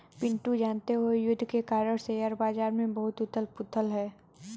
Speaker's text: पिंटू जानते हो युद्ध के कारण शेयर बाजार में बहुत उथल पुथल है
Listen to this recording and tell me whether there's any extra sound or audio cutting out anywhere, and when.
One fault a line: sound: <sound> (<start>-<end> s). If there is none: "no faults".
no faults